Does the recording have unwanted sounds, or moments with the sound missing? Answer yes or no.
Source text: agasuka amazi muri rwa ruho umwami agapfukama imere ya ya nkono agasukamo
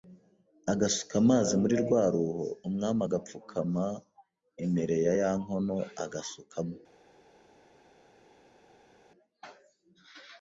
no